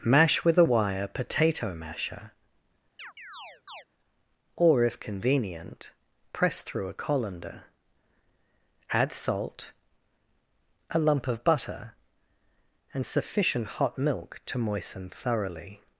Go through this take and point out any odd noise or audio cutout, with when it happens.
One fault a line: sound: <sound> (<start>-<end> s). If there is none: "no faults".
sound: chirp (3.0-3.8 s)